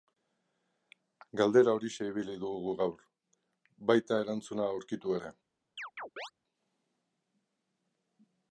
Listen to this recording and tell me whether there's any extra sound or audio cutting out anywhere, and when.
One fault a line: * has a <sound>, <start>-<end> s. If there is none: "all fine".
* has a chirp, 5.8-6.3 s